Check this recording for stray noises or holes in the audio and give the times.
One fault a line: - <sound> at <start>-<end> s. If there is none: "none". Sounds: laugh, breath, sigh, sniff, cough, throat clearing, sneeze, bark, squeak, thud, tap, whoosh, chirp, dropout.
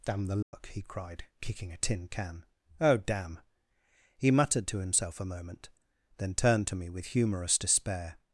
- dropout at 0.4-0.5 s